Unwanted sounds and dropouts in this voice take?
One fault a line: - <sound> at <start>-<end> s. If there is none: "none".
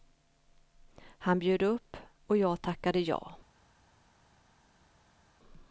none